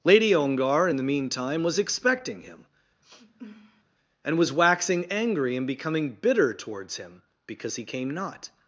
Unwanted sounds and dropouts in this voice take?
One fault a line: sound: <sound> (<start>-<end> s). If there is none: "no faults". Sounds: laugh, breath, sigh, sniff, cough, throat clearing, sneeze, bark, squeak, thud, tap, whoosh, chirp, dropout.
sound: sniff (3.0-3.8 s)